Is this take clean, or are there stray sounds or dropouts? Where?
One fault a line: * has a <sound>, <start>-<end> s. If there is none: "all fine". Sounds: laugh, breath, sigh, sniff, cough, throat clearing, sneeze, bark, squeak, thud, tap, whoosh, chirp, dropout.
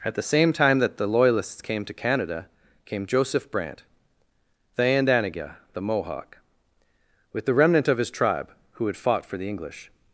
all fine